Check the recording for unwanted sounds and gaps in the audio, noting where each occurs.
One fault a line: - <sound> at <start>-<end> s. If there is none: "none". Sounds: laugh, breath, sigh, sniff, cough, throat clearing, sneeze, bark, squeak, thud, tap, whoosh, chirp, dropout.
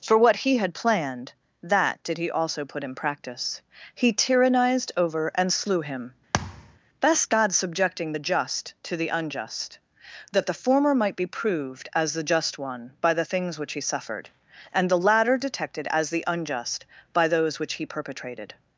- thud at 6.3-6.8 s